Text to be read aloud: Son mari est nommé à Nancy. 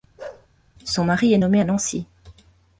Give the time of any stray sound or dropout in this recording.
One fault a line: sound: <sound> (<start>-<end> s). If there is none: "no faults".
sound: bark (0.2-0.5 s)